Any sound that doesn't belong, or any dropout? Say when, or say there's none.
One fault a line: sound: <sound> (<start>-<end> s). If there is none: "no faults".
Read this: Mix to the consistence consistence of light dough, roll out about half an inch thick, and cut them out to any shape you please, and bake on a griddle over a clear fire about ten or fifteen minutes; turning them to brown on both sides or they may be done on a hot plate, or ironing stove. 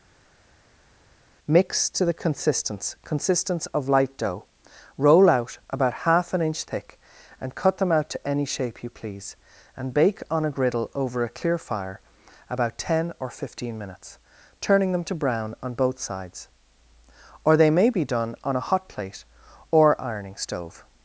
no faults